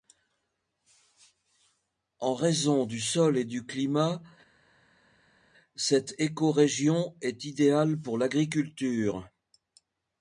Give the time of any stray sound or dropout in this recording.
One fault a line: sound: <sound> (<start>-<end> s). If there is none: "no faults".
no faults